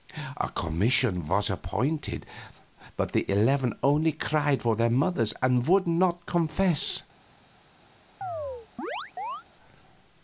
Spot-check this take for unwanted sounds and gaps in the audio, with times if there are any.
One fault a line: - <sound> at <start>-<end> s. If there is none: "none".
- chirp at 8.2-9.4 s